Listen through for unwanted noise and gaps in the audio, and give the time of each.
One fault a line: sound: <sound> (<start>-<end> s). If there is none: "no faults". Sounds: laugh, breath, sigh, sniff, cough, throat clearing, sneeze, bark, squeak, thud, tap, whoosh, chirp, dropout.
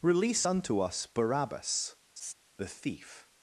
sound: laugh (2.2-2.3 s)